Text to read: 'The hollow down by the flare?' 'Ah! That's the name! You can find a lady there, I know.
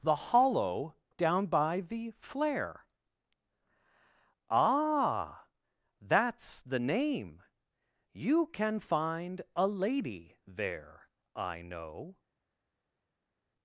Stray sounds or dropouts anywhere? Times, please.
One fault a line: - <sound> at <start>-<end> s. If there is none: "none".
none